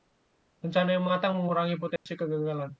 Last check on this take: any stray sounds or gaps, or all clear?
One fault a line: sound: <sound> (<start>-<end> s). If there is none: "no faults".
sound: dropout (2.0-2.1 s)